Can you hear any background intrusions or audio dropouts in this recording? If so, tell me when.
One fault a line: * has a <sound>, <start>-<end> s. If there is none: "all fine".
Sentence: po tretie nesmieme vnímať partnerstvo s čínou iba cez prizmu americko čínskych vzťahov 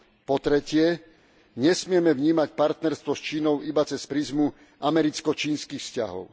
all fine